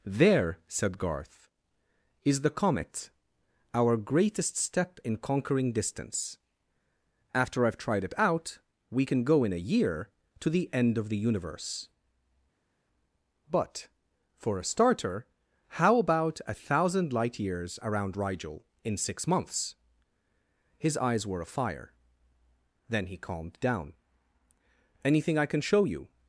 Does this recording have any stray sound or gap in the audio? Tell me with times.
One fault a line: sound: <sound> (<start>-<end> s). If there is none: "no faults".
no faults